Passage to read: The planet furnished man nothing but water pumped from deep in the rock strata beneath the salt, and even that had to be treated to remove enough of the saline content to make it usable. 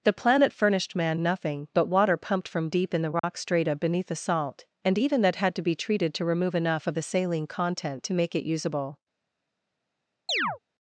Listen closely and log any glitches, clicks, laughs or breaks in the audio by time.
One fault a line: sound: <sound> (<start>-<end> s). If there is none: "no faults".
sound: dropout (3.2-3.2 s)
sound: chirp (10.3-10.6 s)